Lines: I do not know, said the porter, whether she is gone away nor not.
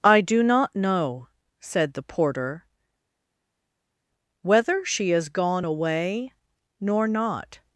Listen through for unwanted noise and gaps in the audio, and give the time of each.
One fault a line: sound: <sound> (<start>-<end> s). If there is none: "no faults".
no faults